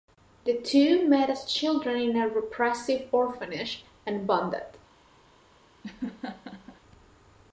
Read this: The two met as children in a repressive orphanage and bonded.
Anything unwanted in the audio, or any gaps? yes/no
yes